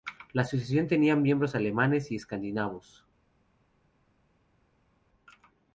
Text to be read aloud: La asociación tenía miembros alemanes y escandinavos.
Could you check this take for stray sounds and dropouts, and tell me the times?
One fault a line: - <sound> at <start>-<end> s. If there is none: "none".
none